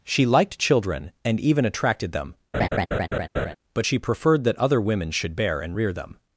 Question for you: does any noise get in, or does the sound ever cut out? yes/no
yes